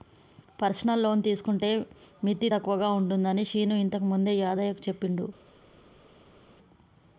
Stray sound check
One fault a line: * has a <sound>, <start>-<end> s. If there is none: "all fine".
all fine